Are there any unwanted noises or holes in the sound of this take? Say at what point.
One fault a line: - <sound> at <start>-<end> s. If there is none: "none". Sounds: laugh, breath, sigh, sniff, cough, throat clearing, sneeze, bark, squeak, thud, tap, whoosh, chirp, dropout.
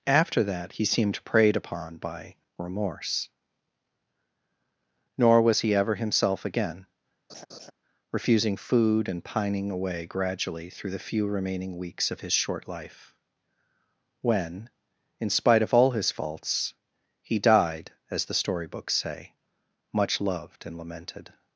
- laugh at 7.3-7.7 s